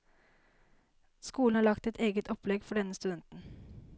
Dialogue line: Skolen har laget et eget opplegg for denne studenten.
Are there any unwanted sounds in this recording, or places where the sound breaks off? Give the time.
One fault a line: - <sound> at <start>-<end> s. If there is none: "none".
none